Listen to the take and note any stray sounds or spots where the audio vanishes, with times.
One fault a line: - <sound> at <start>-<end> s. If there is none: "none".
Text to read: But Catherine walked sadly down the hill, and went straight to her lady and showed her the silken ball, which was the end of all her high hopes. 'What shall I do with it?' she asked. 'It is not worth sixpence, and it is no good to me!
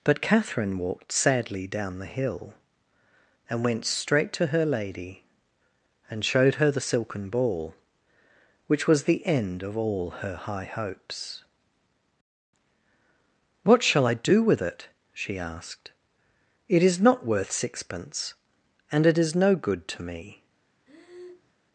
- breath at 20.9-21.5 s